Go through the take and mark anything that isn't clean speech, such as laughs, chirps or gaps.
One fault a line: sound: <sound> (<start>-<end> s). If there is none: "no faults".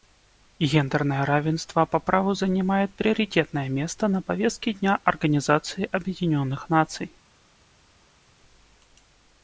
no faults